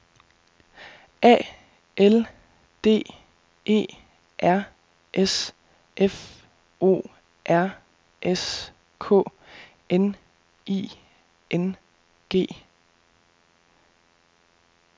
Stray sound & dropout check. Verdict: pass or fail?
pass